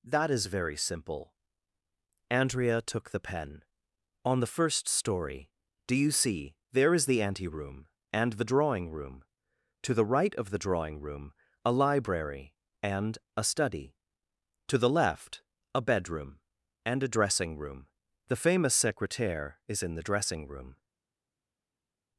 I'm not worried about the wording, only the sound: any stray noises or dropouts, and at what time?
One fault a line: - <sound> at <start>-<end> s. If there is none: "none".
none